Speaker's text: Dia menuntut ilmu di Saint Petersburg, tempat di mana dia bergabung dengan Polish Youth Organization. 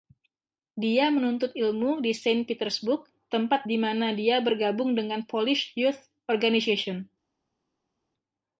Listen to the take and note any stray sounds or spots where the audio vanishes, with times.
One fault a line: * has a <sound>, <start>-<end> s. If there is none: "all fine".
all fine